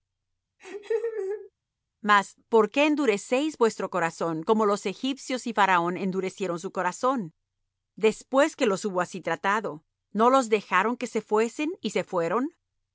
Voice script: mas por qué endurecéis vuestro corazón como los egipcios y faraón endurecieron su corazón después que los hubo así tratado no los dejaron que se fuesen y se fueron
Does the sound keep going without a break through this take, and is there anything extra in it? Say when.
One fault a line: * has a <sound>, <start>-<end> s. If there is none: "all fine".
* has a laugh, 0.6-1.5 s